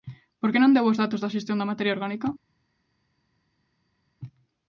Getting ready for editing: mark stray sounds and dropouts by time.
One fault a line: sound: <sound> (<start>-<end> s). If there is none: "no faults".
no faults